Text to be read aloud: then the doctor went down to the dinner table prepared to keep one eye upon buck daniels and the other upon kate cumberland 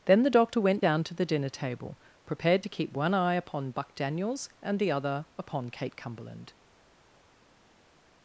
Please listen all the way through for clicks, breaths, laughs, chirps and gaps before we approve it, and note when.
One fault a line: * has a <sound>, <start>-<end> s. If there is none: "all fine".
all fine